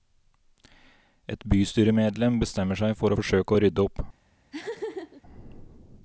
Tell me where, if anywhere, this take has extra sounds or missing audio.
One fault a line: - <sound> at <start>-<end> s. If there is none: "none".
- laugh at 4.5-5.2 s